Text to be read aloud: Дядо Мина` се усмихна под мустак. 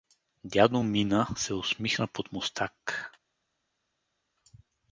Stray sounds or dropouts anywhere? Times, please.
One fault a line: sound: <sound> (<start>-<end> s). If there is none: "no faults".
no faults